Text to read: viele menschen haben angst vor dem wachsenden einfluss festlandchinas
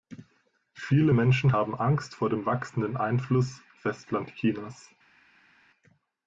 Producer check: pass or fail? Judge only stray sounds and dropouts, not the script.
pass